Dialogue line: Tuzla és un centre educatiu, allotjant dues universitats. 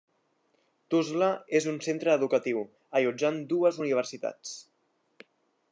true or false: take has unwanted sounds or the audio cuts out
false